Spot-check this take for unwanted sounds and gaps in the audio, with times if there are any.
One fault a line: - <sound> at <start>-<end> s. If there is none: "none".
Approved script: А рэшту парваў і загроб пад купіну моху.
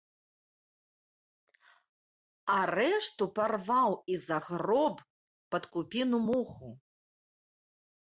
none